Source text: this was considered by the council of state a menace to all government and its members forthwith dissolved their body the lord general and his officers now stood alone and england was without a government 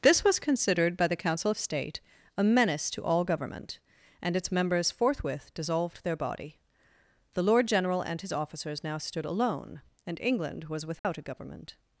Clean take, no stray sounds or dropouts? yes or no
no